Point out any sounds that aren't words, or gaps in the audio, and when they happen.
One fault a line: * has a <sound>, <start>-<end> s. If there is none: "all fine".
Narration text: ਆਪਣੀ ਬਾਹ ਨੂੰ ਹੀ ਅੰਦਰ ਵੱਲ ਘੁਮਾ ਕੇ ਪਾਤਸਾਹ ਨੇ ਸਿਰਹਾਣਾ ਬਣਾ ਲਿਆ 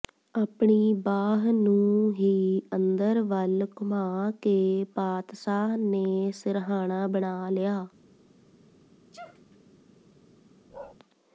* has a sneeze, 9.1-9.6 s
* has a bark, 10.7-11.0 s